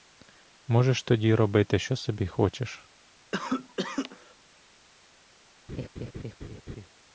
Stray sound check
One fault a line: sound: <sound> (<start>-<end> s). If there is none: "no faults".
sound: cough (3.3-4.3 s)
sound: laugh (5.7-6.9 s)